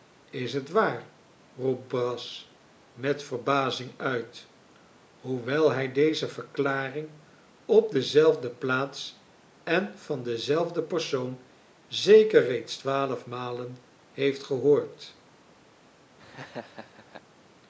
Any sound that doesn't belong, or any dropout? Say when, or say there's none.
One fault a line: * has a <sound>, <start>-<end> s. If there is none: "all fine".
* has a laugh, 16.2-17.2 s